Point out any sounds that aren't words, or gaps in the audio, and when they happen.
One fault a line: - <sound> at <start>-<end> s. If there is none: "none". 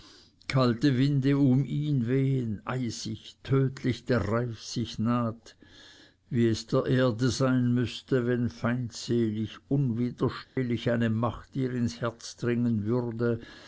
- dropout at 10.4-10.6 s